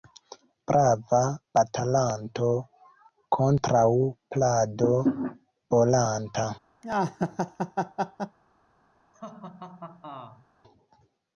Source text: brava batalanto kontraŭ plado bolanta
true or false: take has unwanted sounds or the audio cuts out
true